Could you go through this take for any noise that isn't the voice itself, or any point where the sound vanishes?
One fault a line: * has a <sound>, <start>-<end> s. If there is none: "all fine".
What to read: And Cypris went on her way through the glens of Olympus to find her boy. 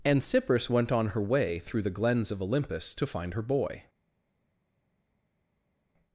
all fine